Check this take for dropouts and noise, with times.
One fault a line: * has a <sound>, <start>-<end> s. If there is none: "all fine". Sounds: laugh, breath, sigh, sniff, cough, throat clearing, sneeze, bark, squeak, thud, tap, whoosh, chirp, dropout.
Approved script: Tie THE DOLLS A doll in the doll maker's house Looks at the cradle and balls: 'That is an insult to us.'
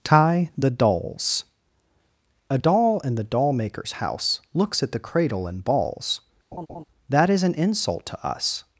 * has a laugh, 6.5-6.8 s